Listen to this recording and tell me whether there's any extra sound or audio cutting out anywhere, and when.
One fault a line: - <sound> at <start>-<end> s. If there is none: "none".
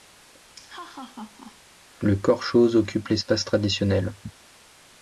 - laugh at 0.5-1.6 s